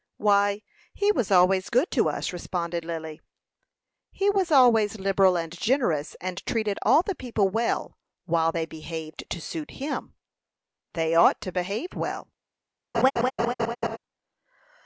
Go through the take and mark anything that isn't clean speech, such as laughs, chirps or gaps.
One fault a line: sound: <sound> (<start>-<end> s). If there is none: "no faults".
sound: laugh (12.9-14.0 s)